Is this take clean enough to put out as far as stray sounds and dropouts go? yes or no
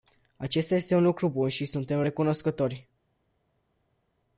yes